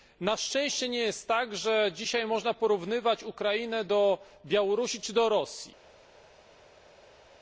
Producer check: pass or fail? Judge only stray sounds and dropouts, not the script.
pass